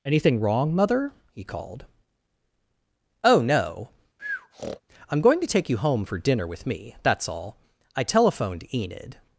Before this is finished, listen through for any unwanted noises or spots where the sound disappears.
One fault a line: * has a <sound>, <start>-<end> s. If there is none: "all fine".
* has a breath, 4.2-4.8 s